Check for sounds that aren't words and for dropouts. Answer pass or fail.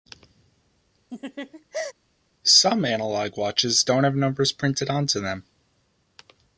fail